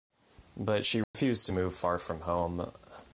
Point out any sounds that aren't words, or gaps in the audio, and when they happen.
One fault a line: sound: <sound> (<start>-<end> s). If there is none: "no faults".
sound: dropout (1.0-1.1 s)